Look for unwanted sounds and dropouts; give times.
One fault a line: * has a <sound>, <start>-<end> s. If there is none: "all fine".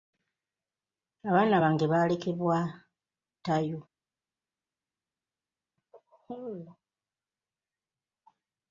all fine